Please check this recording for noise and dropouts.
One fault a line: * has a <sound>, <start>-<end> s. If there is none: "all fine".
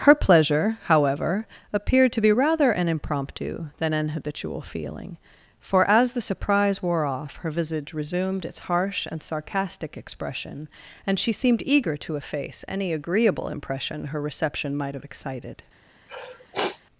* has a sniff, 16.1-16.8 s